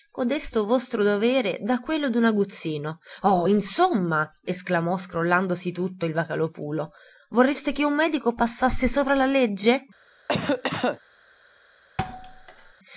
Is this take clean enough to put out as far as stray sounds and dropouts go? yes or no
no